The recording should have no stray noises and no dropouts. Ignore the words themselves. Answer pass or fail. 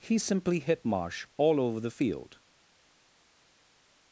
pass